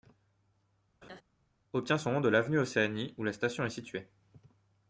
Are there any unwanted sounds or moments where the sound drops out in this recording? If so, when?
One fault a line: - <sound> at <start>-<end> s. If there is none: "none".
- laugh at 1.0-1.2 s